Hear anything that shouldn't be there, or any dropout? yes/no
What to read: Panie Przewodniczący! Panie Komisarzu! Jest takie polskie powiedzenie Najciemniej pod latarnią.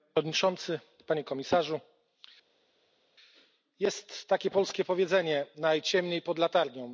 no